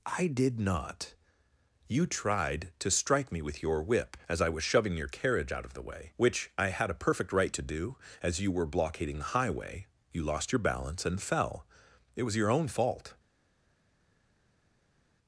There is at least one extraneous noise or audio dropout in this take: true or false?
false